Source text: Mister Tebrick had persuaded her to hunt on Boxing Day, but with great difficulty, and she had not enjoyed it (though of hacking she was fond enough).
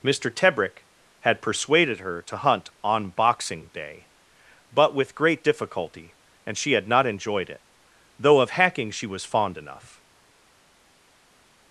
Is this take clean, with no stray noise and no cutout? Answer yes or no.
yes